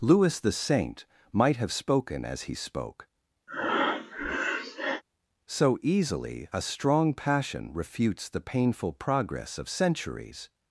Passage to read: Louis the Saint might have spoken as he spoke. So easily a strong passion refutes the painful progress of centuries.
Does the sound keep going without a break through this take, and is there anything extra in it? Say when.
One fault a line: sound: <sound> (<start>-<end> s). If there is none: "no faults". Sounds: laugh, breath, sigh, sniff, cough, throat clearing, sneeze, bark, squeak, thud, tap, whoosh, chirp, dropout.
sound: breath (3.5-5.0 s)